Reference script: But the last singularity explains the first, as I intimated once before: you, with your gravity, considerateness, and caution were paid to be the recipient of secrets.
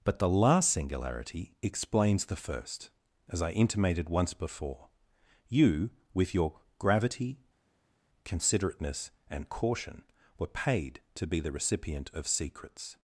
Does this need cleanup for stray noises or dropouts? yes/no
no